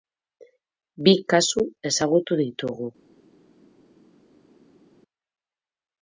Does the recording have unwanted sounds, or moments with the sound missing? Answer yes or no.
no